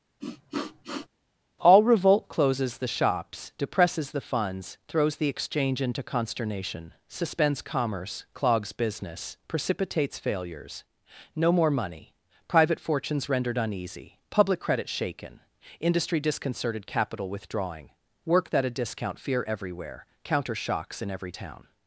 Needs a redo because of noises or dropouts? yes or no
yes